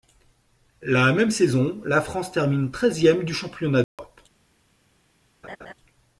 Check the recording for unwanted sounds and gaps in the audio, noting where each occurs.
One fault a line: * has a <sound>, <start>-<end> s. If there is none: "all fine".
* has a dropout, 3.8-4.0 s
* has a laugh, 5.4-5.7 s